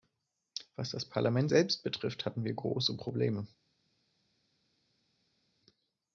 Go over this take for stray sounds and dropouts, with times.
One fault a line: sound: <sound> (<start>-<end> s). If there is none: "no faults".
no faults